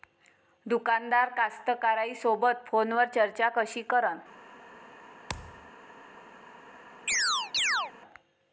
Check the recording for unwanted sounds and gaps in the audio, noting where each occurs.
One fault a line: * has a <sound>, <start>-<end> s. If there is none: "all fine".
* has a thud, 5.3-5.7 s
* has a chirp, 7.1-7.9 s